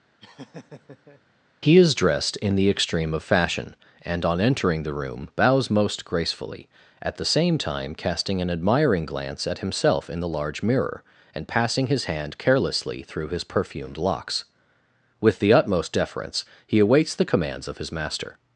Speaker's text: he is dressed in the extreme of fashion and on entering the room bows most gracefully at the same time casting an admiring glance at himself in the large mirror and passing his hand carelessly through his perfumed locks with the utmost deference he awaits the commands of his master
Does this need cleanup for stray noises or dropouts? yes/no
yes